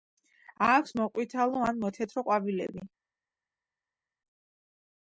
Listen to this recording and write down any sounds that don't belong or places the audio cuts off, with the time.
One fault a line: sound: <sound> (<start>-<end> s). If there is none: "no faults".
no faults